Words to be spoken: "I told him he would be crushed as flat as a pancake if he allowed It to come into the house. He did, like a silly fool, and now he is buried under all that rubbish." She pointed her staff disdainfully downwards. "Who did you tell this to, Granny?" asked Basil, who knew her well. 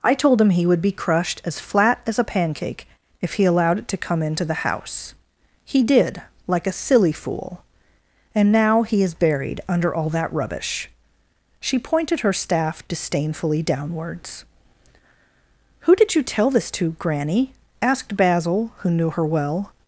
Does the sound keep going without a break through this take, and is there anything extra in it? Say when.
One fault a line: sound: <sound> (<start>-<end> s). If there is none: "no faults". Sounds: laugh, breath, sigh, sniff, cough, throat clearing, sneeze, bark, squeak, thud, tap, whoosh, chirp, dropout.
no faults